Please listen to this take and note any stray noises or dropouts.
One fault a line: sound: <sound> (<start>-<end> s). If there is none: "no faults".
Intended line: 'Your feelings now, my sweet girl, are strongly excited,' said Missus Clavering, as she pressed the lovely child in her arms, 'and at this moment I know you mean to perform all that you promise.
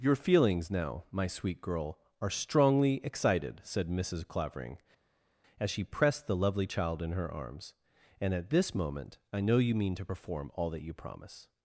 no faults